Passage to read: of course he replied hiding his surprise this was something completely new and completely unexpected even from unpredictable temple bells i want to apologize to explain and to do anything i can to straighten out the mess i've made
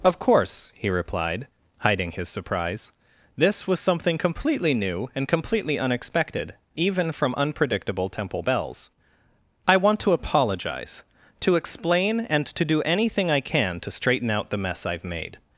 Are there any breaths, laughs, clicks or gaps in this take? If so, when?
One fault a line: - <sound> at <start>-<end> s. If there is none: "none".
none